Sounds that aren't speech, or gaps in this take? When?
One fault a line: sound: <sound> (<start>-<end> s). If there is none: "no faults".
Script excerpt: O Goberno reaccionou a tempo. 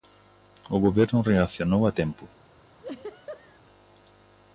sound: laugh (2.8-3.6 s)